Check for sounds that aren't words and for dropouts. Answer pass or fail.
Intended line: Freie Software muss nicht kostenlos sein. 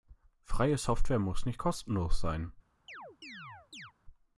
fail